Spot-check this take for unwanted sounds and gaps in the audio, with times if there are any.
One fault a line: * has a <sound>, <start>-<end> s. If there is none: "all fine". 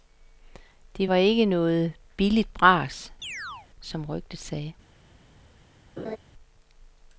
* has a chirp, 3.2-3.7 s
* has a laugh, 6.0-6.2 s